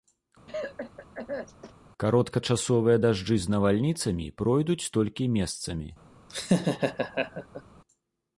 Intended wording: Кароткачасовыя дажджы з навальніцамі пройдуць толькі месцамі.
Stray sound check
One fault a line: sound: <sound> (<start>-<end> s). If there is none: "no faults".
sound: cough (0.5-1.7 s)
sound: laugh (6.3-7.6 s)